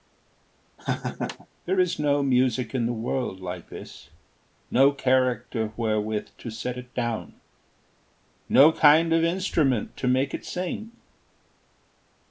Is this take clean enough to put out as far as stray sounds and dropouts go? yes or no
no